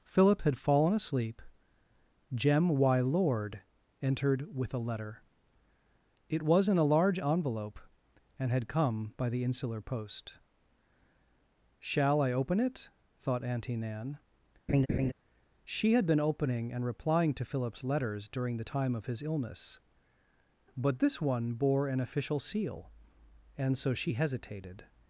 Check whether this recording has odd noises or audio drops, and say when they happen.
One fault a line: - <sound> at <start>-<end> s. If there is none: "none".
- laugh at 14.7-15.1 s